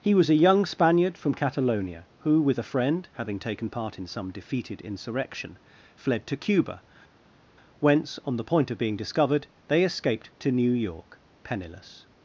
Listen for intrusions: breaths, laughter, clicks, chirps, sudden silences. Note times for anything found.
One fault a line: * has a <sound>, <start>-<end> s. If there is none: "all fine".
all fine